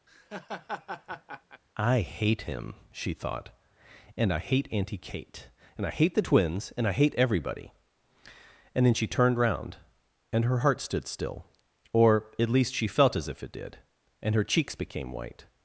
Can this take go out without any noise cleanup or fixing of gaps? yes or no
no